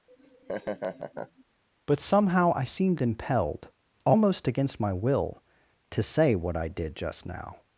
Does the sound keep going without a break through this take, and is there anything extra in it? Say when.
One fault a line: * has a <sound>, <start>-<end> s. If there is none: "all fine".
* has a laugh, 0.1-1.4 s